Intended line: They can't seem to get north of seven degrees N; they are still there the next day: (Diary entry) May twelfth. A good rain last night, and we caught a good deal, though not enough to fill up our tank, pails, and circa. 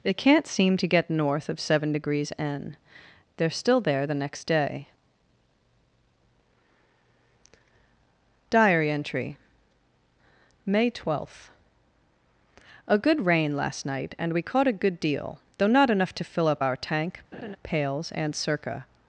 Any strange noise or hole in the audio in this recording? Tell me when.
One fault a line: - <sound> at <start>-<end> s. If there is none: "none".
- laugh at 17.3-17.6 s